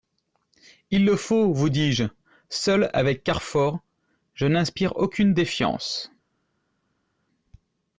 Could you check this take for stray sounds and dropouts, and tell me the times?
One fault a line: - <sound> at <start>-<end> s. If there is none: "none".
none